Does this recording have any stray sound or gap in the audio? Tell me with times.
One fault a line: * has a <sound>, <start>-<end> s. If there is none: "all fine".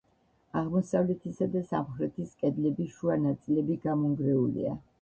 all fine